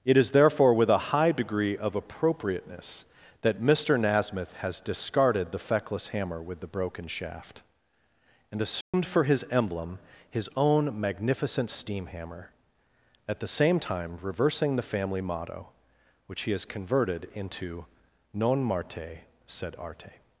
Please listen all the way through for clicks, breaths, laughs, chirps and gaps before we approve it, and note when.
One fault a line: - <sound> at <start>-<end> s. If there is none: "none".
- dropout at 8.8-8.9 s